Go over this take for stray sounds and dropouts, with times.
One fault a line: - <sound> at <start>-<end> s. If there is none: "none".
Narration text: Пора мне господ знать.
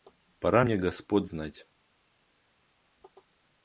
none